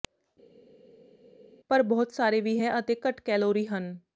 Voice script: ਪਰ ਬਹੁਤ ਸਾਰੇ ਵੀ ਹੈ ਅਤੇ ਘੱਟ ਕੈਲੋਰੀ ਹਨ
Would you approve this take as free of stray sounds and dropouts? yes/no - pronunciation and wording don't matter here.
yes